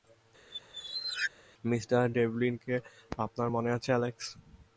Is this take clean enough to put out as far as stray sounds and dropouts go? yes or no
no